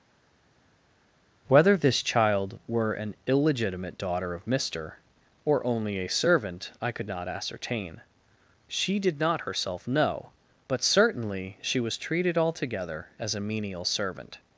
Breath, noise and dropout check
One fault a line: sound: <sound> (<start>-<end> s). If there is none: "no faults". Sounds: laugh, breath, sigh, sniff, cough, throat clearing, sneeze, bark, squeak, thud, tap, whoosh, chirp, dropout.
no faults